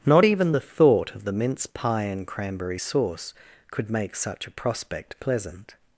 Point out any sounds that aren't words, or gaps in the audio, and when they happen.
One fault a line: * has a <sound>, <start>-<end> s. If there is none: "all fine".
all fine